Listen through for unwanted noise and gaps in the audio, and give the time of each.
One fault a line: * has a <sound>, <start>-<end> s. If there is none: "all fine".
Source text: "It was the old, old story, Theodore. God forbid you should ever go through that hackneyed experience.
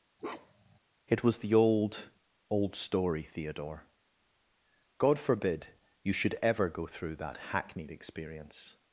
* has a bark, 0.2-0.8 s